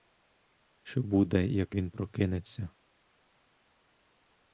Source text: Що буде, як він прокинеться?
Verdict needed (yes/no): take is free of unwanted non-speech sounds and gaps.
yes